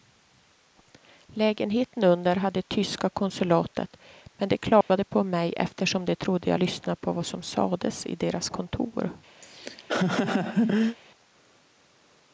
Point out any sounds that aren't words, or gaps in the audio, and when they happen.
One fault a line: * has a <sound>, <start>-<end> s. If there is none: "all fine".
* has a dropout, 4.8-4.9 s
* has a laugh, 9.4-11.0 s